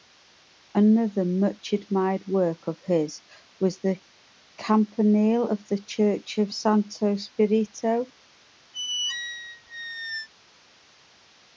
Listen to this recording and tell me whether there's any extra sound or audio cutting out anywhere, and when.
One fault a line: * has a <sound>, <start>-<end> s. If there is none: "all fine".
* has a squeak, 8.7-10.3 s